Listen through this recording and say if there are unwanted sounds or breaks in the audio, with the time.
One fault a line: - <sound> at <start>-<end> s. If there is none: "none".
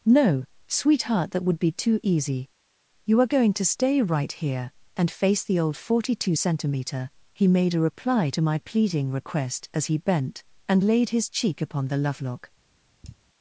- sigh at 13.0-13.2 s